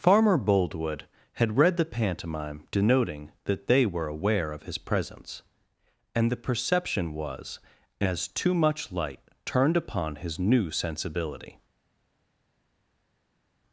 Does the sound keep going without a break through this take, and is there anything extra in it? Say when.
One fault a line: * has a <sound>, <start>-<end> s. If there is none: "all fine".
all fine